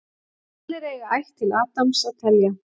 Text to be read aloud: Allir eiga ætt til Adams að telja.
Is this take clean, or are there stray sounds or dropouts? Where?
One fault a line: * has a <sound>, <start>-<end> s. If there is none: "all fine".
all fine